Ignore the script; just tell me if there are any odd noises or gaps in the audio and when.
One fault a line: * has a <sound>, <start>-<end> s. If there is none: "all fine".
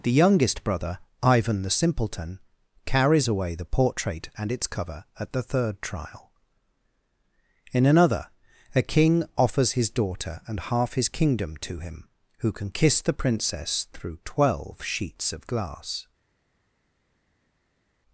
all fine